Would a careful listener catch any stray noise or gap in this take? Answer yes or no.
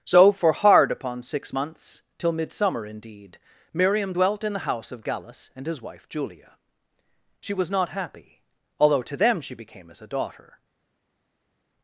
no